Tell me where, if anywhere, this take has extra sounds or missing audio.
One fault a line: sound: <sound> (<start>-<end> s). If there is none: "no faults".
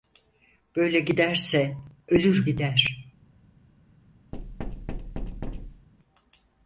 sound: thud (4.3-5.9 s)